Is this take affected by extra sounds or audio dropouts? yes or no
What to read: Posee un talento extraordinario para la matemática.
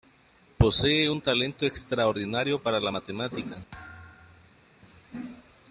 yes